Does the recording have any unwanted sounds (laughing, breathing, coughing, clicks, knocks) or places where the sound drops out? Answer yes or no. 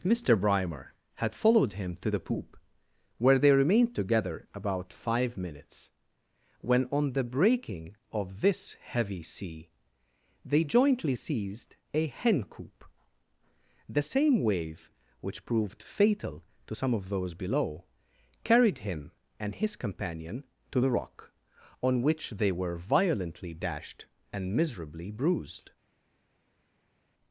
no